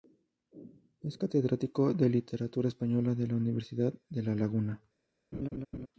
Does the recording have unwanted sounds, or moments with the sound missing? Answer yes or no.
yes